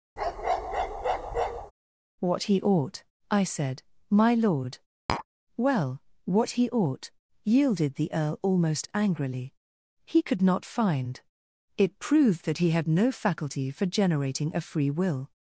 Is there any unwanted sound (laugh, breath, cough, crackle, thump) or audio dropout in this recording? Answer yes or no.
yes